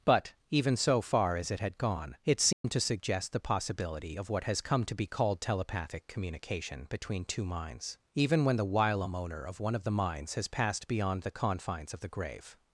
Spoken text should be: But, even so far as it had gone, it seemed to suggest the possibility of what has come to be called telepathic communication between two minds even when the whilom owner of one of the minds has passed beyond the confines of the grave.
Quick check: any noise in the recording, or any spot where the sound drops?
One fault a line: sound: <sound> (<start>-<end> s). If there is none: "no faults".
sound: dropout (2.5-2.6 s)